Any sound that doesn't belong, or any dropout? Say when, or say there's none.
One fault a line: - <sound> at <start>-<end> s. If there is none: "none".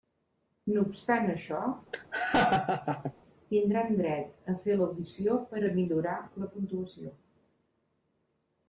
- laugh at 1.9-3.1 s